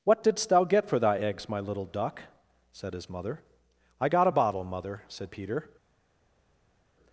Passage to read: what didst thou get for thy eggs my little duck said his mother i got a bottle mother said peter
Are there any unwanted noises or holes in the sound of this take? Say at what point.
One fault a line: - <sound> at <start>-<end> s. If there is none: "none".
none